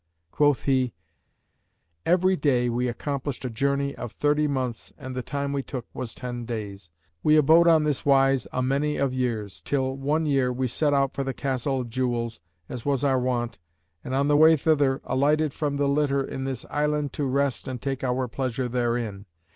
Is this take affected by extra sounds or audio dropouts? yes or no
no